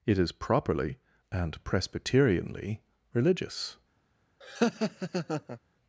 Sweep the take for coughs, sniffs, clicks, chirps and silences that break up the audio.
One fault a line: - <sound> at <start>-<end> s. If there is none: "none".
- laugh at 4.4-5.6 s